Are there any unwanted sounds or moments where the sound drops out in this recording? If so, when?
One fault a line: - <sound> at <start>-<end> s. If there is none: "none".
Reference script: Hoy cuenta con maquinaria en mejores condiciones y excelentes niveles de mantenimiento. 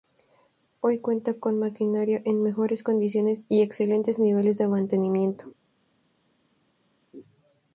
none